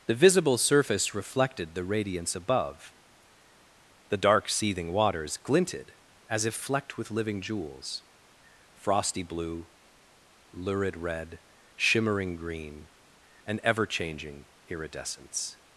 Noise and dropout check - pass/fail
pass